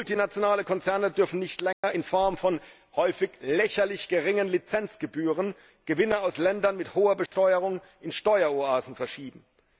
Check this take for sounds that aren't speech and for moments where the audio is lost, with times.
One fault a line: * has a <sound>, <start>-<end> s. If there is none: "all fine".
* has a dropout, 1.7-1.8 s
* has a dropout, 7.3-7.3 s